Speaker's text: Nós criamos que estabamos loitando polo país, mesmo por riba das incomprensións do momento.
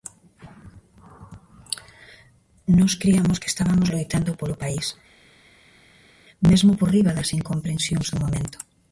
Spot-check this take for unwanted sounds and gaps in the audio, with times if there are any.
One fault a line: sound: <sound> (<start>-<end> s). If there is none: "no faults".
no faults